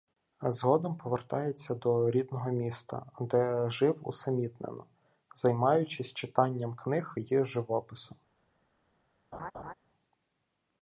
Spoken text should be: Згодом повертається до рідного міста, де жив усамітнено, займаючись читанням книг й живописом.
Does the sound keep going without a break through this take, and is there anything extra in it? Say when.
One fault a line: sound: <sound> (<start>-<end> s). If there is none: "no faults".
sound: laugh (9.3-9.7 s)